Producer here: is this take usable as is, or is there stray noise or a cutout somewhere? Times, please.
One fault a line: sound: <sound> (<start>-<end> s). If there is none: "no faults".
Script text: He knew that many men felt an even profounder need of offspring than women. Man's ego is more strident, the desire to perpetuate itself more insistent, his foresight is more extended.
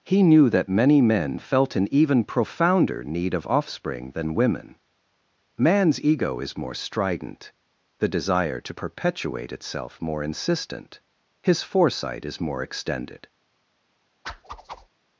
sound: whoosh (14.2-14.9 s)